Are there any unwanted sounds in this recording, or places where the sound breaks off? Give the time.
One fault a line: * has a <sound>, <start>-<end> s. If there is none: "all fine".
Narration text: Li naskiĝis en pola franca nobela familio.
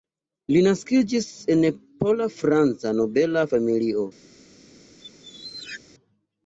* has a squeak, 5.0-5.8 s